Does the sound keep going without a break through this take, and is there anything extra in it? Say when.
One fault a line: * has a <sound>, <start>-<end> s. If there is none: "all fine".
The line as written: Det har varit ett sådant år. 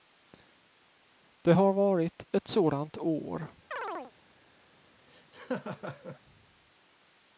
* has a chirp, 3.7-4.1 s
* has a laugh, 5.1-6.2 s